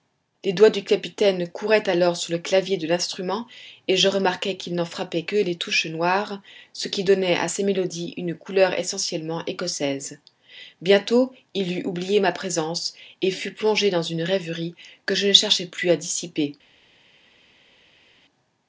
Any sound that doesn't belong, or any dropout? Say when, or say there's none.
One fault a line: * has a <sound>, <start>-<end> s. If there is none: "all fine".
all fine